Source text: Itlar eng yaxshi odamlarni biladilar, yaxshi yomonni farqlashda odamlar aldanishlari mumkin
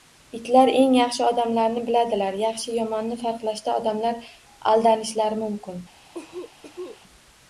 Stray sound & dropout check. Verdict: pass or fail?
fail